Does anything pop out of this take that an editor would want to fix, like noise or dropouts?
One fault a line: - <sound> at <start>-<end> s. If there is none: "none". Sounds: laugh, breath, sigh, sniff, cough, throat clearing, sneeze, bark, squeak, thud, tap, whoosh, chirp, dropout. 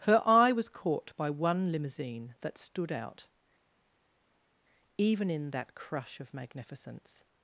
none